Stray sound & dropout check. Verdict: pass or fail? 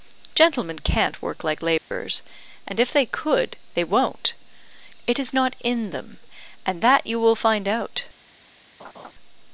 fail